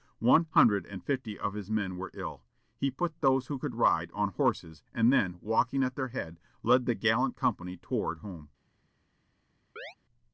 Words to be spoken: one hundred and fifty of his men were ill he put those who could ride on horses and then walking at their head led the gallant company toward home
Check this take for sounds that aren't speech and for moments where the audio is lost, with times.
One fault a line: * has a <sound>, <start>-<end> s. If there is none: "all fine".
* has a chirp, 9.8-10.0 s